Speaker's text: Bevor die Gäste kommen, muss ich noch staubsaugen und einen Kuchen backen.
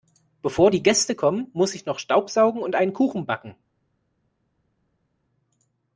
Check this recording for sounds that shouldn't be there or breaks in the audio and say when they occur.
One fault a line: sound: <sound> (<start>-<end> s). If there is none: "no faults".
no faults